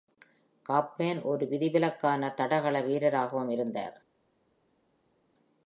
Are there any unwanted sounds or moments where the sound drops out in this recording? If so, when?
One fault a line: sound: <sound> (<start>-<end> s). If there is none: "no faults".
no faults